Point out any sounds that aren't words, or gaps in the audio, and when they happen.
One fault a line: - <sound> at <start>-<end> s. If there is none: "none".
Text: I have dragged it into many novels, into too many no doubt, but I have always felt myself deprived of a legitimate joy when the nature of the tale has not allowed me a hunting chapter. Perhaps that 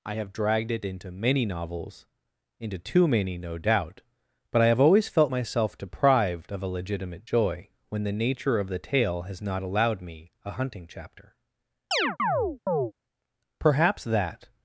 - chirp at 11.9-12.9 s